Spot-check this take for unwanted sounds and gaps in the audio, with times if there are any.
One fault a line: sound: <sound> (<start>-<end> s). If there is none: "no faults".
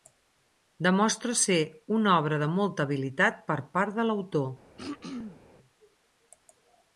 sound: throat clearing (4.8-5.4 s)